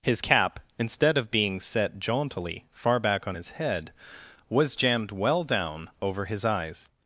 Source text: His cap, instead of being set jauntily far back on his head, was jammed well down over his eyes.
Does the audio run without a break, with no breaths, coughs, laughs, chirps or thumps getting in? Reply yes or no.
yes